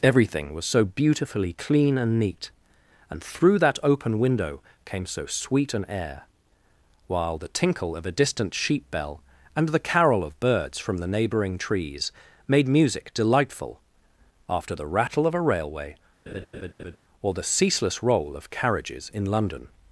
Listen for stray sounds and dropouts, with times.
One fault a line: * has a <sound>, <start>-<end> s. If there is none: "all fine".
* has a laugh, 16.3-17.0 s